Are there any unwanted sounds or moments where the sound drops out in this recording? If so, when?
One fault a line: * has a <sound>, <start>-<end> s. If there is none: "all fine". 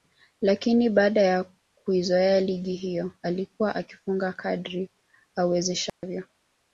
* has a dropout, 5.9-6.0 s